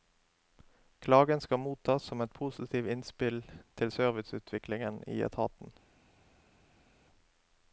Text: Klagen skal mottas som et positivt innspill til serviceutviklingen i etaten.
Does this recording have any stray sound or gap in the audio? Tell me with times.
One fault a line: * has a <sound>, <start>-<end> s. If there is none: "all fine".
all fine